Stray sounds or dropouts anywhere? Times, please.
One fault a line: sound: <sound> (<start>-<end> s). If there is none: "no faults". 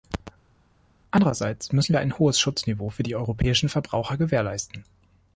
no faults